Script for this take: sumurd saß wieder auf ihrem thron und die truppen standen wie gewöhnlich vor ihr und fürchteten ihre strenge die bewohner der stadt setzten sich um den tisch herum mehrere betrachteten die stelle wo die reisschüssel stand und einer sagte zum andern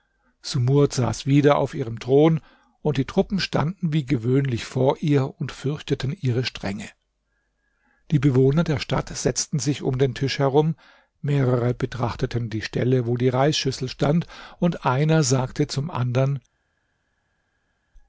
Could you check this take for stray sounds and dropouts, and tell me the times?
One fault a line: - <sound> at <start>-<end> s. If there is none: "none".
none